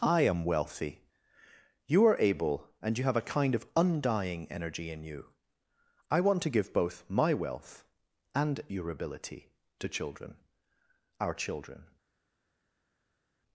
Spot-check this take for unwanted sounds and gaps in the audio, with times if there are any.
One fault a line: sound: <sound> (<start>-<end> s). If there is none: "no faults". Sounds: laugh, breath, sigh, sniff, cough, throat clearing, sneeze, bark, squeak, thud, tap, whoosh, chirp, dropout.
no faults